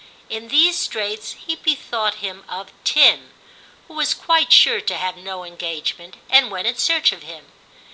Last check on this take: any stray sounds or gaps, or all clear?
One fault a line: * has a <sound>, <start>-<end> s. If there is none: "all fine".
all fine